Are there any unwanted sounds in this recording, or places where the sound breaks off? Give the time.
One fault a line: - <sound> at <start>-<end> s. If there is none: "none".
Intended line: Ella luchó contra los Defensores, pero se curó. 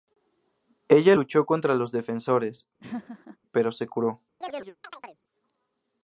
- laugh at 2.8-3.4 s
- chirp at 4.4-5.2 s